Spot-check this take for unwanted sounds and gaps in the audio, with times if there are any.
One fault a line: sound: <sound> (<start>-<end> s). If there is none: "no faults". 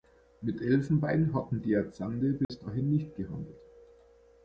sound: dropout (2.4-2.5 s)